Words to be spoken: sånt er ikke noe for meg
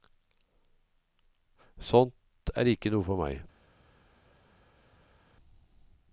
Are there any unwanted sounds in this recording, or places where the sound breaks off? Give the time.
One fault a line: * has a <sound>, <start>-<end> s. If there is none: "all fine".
all fine